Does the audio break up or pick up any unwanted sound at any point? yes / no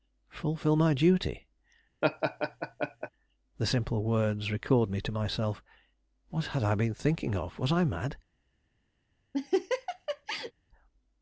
yes